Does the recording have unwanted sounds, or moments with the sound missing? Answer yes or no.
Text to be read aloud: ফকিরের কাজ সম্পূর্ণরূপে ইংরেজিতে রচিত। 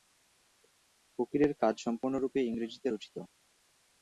no